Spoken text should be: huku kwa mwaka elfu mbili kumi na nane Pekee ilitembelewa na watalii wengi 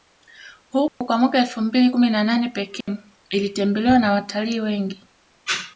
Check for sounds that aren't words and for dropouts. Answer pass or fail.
fail